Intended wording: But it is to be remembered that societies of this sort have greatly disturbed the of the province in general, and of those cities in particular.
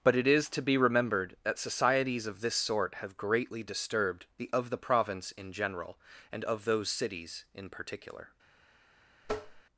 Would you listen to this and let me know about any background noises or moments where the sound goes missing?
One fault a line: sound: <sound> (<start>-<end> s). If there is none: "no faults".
sound: tap (9.2-9.6 s)